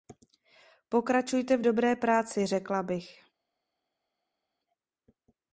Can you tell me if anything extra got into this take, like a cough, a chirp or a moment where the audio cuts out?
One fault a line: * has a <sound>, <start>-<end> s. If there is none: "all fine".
all fine